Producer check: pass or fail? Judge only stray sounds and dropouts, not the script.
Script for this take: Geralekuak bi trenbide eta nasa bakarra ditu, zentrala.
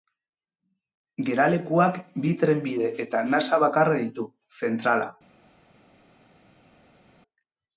pass